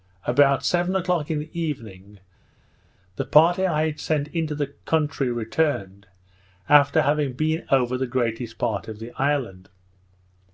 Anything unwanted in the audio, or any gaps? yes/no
no